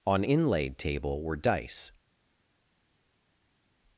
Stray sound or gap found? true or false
false